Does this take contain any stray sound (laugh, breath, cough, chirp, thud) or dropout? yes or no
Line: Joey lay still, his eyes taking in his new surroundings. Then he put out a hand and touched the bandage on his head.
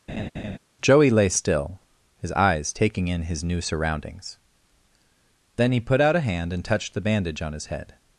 yes